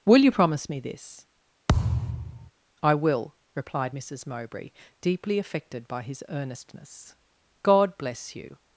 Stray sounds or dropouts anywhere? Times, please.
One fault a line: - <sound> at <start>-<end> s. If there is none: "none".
- thud at 1.7-2.5 s